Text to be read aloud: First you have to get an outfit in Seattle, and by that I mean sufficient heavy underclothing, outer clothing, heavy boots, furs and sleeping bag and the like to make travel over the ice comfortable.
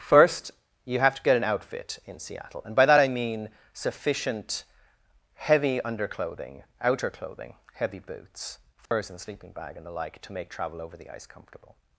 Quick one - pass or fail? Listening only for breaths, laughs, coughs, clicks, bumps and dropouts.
fail